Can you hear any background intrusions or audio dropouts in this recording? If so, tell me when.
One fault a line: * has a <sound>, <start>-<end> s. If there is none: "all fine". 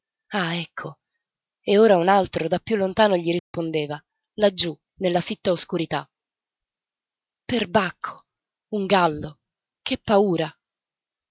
* has a dropout, 3.4-3.5 s